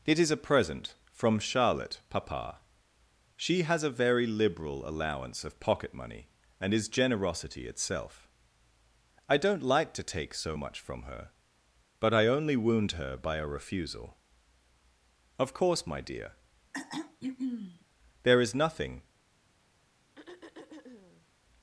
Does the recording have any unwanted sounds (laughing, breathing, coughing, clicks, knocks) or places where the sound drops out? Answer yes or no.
yes